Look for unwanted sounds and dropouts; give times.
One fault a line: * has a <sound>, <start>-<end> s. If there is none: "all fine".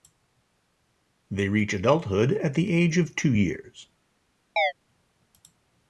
* has a chirp, 4.6-4.7 s